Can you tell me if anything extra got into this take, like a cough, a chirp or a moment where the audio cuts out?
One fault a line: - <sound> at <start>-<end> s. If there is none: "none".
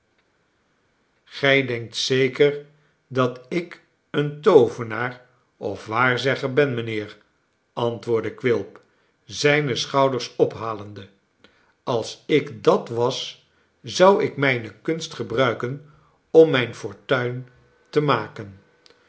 none